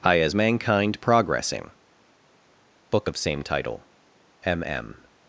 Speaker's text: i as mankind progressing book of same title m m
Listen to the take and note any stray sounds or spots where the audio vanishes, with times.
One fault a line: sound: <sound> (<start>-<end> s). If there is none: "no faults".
no faults